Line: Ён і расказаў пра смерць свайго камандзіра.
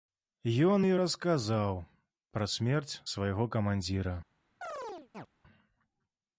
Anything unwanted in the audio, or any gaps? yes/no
yes